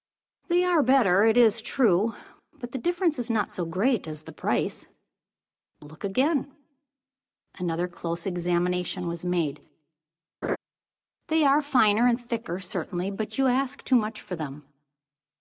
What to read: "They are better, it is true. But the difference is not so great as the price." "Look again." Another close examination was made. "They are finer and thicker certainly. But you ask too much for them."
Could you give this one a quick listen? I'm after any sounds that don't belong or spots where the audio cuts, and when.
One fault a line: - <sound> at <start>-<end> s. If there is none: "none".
- laugh at 10.4-10.6 s